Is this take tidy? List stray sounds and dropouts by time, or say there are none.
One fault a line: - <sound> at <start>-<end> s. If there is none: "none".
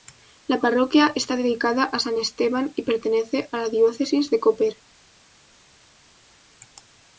none